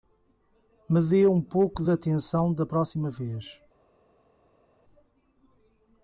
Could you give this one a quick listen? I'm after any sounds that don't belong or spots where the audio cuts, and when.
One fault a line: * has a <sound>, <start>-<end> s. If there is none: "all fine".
all fine